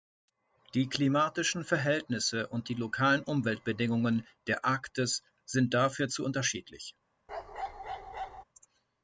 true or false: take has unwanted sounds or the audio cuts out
true